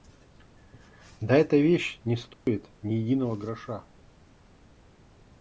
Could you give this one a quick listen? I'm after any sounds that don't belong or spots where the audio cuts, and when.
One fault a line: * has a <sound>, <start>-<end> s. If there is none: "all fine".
* has a dropout, 2.3-2.5 s